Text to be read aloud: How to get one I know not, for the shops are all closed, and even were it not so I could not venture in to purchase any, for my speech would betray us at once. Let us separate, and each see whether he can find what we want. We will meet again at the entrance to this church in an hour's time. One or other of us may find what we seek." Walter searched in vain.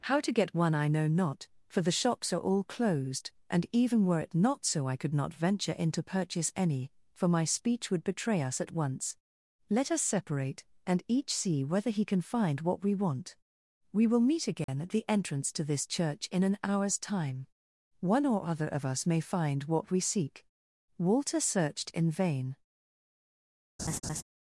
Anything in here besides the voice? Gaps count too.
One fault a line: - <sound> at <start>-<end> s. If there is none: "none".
- dropout at 14.6-14.7 s
- laugh at 23.8-24.2 s